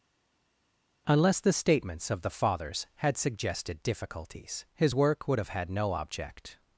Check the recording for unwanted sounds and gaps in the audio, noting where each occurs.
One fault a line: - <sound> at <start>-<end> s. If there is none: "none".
none